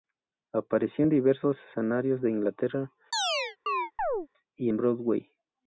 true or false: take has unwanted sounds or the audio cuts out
true